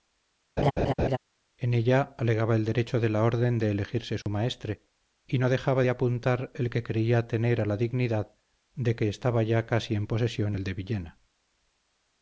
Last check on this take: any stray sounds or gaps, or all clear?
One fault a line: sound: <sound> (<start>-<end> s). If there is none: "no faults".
sound: laugh (0.6-1.2 s)
sound: dropout (4.2-4.3 s)